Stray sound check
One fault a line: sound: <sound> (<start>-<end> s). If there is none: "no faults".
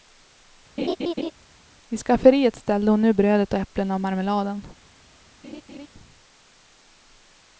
sound: laugh (0.8-1.3 s)
sound: laugh (5.4-5.9 s)